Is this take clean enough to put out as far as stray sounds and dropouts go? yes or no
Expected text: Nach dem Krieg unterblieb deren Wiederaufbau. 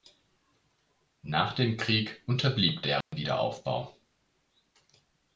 no